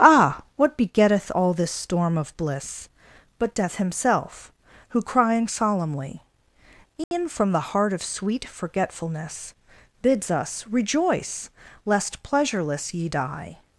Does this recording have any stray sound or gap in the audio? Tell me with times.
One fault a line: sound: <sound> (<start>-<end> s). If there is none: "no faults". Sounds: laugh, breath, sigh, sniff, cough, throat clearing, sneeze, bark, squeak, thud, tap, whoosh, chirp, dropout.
sound: dropout (7.0-7.1 s)